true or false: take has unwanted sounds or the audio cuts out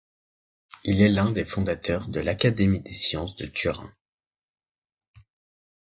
false